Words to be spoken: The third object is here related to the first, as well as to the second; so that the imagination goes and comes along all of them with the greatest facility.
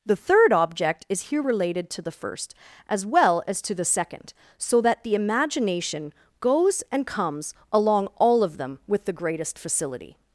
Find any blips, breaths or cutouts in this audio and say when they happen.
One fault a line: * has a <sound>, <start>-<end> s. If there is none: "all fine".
all fine